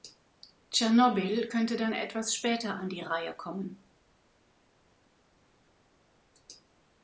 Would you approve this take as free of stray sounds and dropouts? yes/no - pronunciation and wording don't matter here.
yes